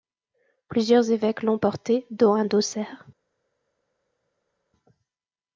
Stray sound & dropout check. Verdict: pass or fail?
pass